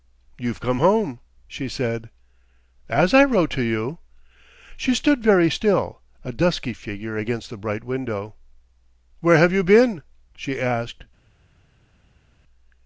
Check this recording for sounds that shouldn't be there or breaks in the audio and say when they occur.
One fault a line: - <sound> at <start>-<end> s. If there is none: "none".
none